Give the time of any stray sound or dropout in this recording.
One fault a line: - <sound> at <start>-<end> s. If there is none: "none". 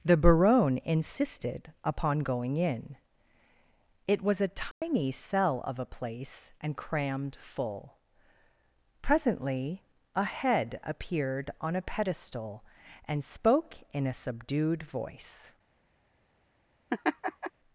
- dropout at 4.7-4.8 s
- laugh at 16.9-17.5 s